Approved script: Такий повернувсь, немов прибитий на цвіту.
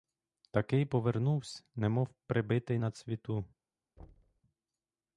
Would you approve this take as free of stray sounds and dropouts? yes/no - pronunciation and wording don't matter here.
no